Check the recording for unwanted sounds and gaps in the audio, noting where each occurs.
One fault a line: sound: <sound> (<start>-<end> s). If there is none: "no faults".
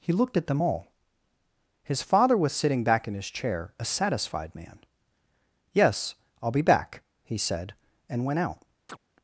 sound: chirp (8.9-9.0 s)